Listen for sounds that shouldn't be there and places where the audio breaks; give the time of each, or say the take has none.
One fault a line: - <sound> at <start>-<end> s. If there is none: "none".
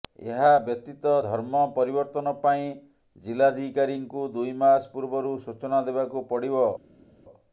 none